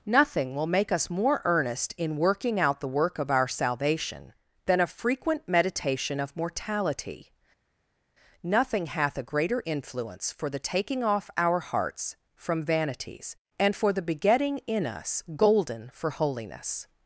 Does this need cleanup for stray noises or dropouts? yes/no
no